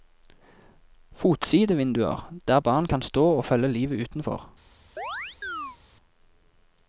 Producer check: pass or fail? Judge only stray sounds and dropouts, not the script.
fail